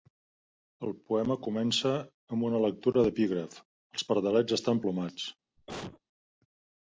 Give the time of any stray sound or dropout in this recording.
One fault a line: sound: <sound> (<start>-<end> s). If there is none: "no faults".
sound: cough (5.6-6.0 s)